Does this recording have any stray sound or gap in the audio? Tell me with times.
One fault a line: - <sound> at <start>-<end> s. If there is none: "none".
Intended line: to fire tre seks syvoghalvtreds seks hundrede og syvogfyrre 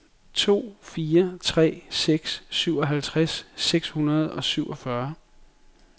none